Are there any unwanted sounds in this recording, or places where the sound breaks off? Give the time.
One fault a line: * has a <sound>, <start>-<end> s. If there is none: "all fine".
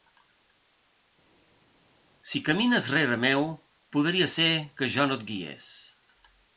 all fine